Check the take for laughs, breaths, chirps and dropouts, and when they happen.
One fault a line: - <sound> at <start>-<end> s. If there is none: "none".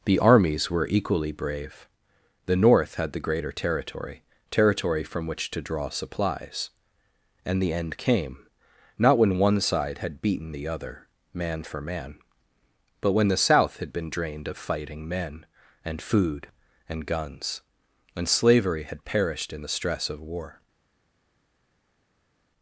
none